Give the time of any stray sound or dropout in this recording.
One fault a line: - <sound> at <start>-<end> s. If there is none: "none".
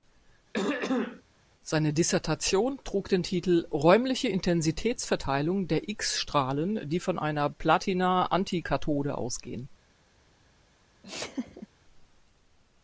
- throat clearing at 0.5-1.2 s
- laugh at 11.0-11.7 s